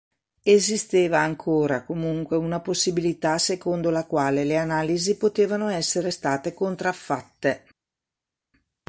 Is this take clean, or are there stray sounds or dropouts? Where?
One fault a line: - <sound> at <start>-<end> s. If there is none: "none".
none